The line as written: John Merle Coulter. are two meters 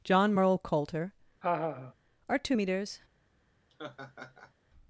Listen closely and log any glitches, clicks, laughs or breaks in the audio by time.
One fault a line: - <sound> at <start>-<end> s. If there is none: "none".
- laugh at 1.4-1.9 s
- laugh at 3.7-4.5 s